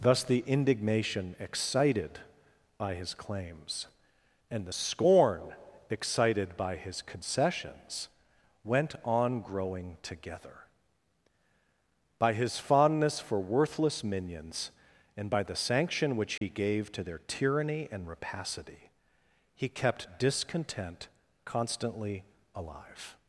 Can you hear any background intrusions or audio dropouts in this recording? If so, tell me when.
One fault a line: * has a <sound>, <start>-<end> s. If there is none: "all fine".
* has a dropout, 16.4-16.4 s